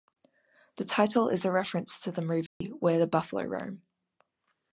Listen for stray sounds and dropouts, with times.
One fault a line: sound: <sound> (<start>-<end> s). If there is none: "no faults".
sound: dropout (2.5-2.6 s)